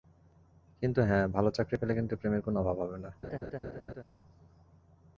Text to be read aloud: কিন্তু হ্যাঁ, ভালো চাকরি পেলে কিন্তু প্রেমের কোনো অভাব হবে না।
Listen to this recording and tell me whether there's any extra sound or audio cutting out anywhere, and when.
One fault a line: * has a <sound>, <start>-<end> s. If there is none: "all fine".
* has a laugh, 3.2-4.0 s